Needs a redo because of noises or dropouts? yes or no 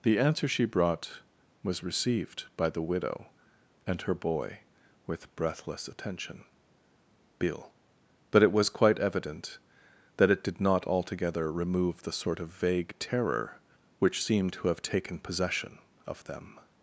no